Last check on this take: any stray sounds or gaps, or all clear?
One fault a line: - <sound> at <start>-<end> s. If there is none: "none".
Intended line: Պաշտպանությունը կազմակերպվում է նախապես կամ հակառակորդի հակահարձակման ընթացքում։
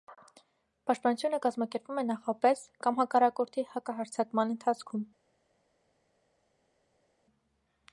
none